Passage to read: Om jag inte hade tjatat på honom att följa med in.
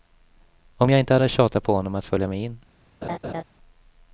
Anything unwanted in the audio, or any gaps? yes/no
yes